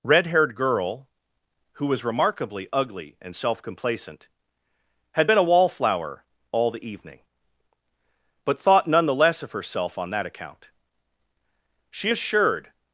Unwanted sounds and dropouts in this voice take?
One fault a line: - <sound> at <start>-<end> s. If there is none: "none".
none